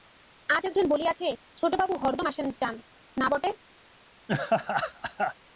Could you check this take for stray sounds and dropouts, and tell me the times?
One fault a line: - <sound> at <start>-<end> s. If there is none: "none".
- laugh at 4.3-5.3 s